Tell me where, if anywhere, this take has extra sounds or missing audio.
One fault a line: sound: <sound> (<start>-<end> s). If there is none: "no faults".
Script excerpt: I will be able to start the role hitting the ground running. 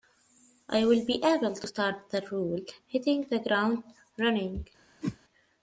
sound: whoosh (5.0-5.2 s)